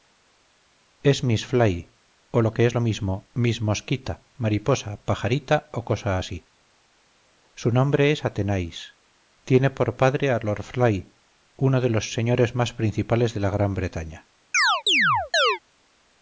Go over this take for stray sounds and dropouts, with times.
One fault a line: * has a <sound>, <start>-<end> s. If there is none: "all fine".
* has a chirp, 14.5-15.6 s